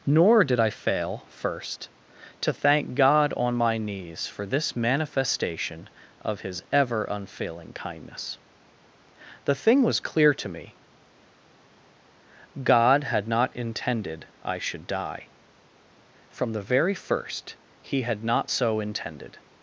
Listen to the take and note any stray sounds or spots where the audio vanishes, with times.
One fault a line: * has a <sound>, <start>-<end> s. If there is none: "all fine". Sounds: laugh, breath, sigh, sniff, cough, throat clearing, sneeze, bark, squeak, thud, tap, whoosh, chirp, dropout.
all fine